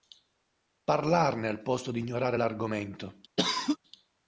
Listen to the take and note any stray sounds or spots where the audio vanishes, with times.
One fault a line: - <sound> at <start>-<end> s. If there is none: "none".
- cough at 3.4-3.8 s